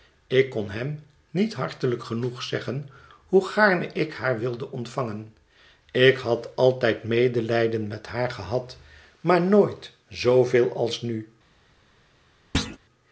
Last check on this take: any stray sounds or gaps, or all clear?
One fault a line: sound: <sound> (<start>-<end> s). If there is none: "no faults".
sound: thud (12.5-12.8 s)